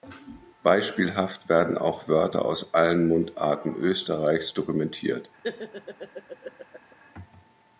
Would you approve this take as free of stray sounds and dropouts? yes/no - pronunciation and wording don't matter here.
no